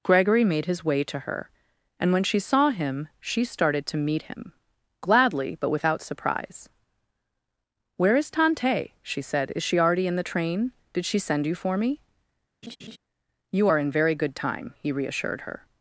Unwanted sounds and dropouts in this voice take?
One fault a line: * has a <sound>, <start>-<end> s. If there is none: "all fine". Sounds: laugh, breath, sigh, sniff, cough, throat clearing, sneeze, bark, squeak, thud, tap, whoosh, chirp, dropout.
* has a laugh, 12.6-13.0 s